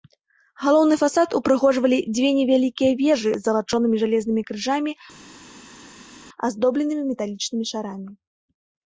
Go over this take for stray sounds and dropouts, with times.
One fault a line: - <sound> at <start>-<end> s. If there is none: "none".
none